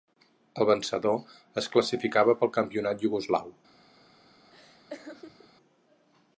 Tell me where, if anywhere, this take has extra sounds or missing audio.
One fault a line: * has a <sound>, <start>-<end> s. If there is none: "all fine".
* has a laugh, 4.5-5.5 s